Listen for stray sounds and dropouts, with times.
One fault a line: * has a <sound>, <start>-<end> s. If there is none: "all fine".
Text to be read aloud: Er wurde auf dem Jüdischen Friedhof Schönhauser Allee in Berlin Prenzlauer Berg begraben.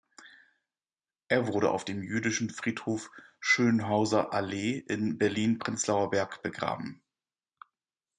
all fine